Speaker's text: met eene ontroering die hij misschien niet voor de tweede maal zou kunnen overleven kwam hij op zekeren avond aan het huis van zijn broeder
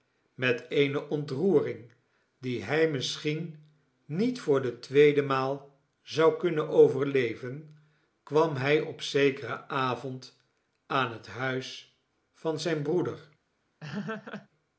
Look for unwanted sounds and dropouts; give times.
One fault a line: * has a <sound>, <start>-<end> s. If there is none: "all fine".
* has a laugh, 13.8-14.5 s